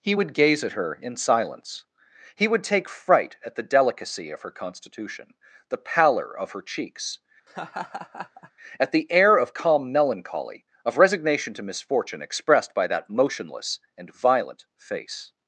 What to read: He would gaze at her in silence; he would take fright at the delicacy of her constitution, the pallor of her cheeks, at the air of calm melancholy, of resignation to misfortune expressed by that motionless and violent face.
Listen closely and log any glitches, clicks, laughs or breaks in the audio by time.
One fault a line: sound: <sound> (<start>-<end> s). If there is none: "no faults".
sound: laugh (7.5-8.5 s)